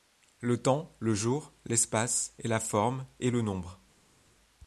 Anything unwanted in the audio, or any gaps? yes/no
no